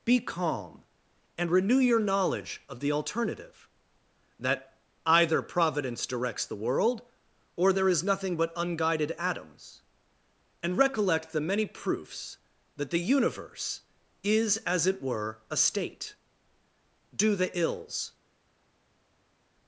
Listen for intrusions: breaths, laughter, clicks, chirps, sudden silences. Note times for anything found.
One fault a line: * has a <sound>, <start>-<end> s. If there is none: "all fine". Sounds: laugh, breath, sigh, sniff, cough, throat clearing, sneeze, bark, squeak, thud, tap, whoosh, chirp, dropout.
all fine